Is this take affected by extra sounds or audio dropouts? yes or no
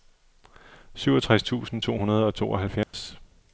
yes